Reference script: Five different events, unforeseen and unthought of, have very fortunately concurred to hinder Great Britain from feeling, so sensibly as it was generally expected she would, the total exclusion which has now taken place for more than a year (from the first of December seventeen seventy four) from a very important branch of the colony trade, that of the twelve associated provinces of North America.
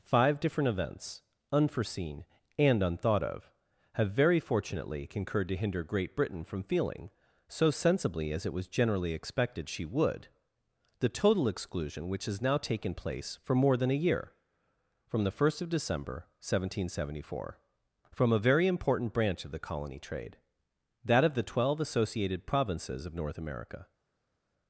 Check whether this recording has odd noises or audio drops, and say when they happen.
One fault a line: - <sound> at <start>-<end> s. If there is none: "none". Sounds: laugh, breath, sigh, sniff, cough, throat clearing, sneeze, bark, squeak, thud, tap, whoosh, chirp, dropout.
none